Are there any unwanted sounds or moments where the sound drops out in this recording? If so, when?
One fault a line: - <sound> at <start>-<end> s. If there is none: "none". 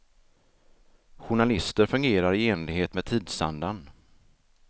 none